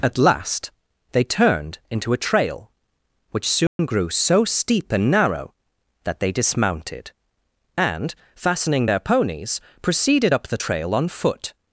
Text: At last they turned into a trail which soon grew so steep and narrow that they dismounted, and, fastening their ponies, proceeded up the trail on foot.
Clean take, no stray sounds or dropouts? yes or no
no